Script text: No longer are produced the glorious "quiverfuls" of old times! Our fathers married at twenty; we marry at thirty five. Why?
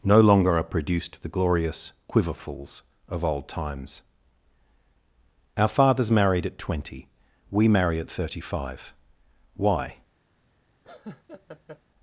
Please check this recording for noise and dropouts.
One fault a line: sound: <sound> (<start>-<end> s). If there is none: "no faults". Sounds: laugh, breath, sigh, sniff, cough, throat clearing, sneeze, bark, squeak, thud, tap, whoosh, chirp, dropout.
sound: laugh (10.8-11.8 s)